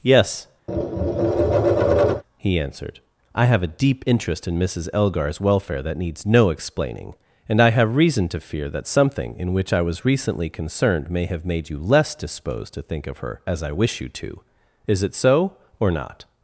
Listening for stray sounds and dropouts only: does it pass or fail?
fail